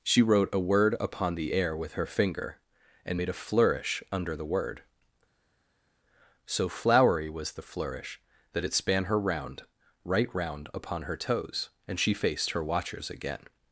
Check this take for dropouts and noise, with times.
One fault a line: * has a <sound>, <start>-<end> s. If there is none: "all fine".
all fine